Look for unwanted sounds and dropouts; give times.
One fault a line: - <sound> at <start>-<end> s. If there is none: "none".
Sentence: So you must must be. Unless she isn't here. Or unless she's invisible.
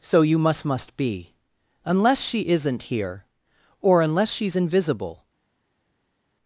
none